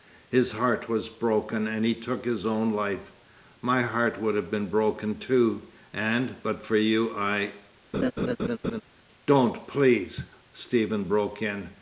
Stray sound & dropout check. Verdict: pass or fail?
fail